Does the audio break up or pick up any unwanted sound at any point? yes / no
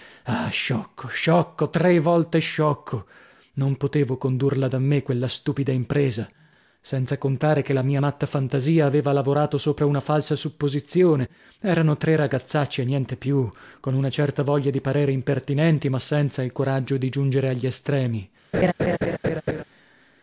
yes